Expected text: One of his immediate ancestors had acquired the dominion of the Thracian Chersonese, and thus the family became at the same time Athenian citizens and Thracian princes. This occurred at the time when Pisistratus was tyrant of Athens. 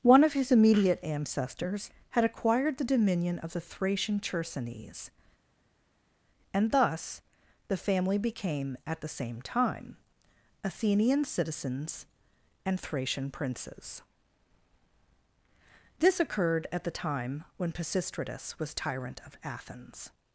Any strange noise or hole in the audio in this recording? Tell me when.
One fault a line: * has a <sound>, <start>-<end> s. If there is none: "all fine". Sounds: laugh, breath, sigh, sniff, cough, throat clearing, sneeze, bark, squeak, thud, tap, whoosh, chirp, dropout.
all fine